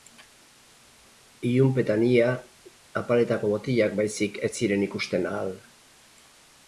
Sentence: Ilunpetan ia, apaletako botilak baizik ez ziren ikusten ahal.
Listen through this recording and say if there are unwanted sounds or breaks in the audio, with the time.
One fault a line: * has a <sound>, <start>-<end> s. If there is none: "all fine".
all fine